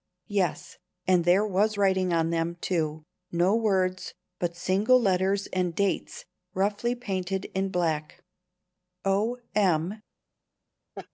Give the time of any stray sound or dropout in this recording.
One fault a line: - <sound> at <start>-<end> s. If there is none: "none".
- laugh at 10.9-11.1 s